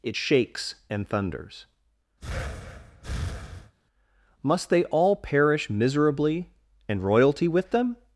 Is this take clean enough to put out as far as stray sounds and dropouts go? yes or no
no